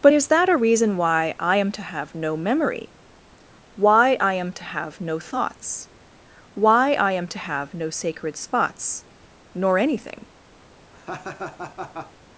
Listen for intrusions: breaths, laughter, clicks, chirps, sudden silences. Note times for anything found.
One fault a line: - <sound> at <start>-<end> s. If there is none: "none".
- laugh at 10.9-12.1 s